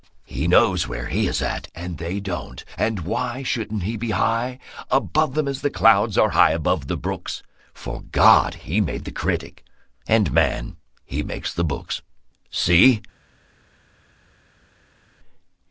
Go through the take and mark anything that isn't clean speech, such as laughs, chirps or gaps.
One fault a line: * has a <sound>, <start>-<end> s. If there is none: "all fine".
all fine